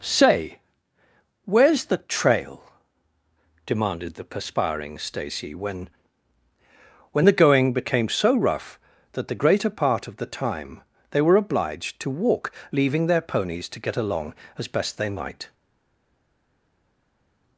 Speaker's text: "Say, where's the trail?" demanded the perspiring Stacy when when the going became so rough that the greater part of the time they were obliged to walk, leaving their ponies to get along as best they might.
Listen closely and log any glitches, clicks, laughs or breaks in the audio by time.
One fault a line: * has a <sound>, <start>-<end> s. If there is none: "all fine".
all fine